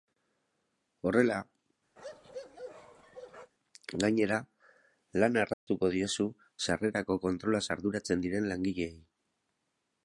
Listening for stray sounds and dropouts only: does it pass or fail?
fail